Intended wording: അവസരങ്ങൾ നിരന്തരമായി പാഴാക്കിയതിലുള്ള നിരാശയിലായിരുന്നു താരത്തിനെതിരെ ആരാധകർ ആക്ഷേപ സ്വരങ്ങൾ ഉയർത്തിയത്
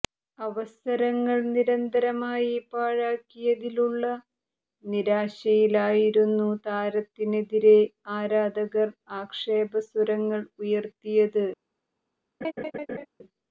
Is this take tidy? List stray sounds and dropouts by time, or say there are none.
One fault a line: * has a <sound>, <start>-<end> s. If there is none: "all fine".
* has a laugh, 12.4-13.1 s